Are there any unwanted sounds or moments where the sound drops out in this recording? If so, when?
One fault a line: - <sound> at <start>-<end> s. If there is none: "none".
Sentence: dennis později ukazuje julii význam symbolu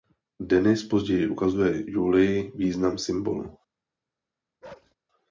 - bark at 4.6-4.9 s